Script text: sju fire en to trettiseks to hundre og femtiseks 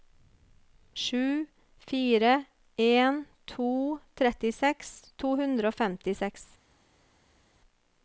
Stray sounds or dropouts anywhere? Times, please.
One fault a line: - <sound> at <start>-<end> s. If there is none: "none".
none